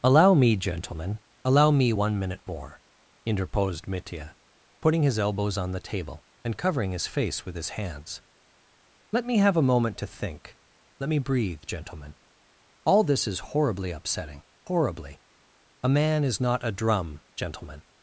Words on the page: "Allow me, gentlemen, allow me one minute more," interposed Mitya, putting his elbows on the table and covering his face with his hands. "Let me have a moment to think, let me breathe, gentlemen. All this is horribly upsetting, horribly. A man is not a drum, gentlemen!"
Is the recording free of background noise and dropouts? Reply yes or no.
yes